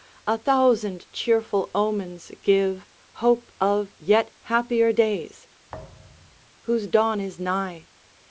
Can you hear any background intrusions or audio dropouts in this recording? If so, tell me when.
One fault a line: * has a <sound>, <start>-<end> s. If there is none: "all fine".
* has a thud, 5.7-6.5 s